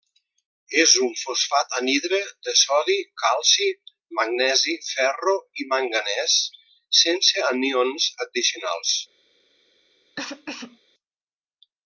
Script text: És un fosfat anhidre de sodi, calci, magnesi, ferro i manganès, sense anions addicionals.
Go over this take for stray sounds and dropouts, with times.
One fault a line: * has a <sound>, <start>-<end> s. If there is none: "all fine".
* has a cough, 10.2-10.8 s